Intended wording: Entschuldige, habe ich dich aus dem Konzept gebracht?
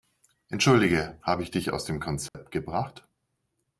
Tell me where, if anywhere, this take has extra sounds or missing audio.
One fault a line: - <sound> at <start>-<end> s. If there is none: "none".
- dropout at 2.3-2.3 s